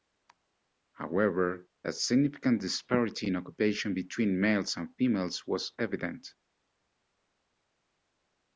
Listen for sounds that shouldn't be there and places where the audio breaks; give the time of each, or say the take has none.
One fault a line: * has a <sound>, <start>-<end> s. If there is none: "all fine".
all fine